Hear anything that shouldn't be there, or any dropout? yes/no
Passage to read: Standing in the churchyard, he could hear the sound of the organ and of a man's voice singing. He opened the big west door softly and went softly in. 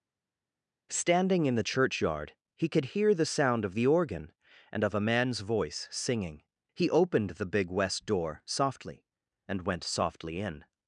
no